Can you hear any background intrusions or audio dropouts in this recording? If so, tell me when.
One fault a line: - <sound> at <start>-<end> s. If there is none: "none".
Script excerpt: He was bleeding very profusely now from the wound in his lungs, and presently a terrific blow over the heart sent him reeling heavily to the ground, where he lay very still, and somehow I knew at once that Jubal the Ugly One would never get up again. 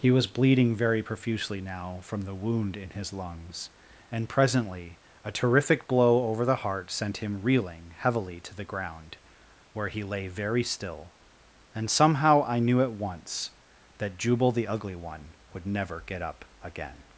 none